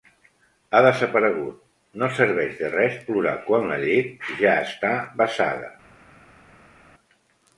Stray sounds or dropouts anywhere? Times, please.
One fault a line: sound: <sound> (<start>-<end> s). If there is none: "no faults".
no faults